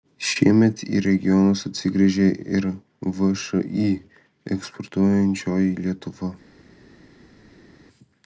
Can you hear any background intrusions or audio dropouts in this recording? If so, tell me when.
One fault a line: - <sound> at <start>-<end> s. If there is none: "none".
none